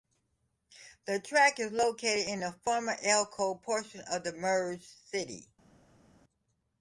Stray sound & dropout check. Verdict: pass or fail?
pass